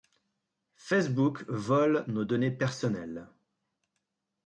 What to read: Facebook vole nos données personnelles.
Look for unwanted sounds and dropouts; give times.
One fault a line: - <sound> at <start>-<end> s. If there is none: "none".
none